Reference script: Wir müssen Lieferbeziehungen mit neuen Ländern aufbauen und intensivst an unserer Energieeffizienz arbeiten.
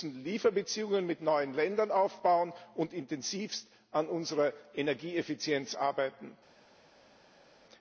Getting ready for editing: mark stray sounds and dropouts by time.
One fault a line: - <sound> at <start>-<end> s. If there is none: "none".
none